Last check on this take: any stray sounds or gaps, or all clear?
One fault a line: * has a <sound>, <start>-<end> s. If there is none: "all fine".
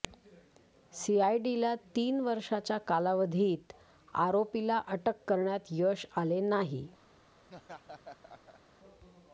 * has a laugh, 7.4-8.6 s